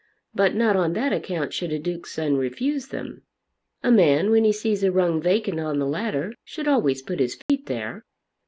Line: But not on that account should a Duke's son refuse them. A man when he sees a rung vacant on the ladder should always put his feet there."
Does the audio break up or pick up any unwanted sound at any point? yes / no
yes